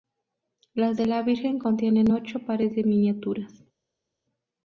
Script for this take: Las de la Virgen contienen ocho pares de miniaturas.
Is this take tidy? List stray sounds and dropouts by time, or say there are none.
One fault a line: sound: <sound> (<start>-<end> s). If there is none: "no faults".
no faults